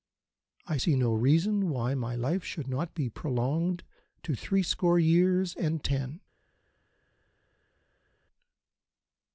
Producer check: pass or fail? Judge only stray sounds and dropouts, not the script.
pass